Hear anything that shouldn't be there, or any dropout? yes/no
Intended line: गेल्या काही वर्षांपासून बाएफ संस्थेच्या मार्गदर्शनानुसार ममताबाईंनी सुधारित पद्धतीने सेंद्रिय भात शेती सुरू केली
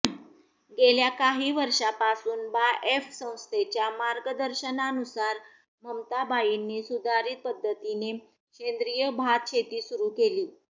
no